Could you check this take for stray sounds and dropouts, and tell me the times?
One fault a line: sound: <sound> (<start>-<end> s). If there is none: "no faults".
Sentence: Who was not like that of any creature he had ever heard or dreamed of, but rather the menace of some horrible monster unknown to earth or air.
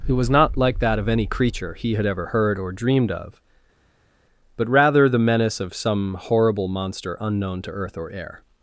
no faults